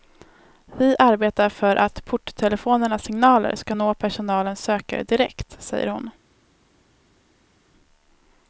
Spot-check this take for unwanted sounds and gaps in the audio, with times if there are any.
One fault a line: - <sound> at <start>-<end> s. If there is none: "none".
none